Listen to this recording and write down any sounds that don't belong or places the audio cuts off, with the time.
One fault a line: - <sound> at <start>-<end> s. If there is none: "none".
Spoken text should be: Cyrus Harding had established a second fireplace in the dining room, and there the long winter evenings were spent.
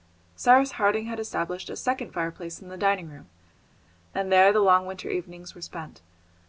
none